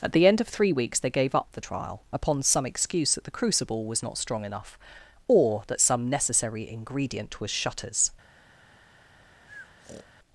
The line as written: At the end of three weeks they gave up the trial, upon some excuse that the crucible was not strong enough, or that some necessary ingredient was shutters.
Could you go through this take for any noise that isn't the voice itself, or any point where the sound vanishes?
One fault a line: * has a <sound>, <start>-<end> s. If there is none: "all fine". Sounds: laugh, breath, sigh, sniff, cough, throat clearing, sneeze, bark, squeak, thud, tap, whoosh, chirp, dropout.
* has a breath, 9.5-10.1 s